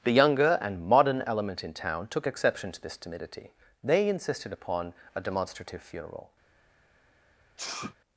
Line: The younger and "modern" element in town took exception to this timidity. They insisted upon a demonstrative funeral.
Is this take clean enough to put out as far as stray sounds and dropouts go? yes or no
no